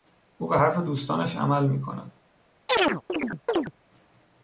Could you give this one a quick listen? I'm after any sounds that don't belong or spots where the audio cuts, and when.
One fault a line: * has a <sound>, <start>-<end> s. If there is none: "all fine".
* has a chirp, 2.7-3.7 s